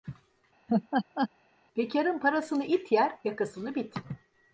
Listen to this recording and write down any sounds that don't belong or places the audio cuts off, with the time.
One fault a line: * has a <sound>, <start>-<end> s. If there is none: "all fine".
* has a laugh, 0.7-1.3 s